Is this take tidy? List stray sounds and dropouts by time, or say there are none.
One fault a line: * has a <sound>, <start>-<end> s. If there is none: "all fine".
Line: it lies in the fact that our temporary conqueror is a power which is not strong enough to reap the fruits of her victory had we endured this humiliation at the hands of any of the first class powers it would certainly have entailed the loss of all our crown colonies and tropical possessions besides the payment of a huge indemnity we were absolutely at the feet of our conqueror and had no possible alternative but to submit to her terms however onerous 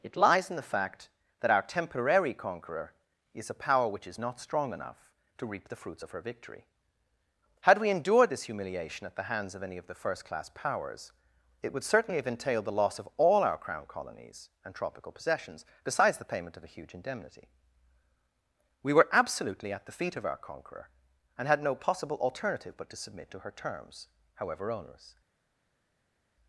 all fine